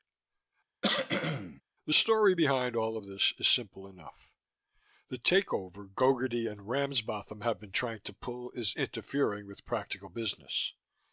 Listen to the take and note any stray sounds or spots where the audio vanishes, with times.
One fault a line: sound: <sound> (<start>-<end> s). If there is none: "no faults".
sound: cough (0.8-1.6 s)